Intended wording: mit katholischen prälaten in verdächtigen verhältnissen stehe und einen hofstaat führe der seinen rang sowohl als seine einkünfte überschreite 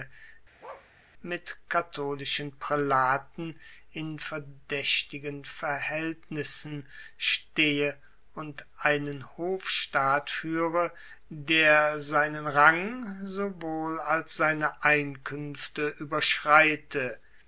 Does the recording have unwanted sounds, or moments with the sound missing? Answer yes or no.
yes